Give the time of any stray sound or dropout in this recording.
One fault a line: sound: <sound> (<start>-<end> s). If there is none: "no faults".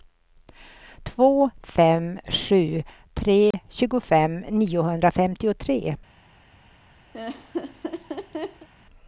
sound: dropout (3.5-3.5 s)
sound: laugh (7.1-8.7 s)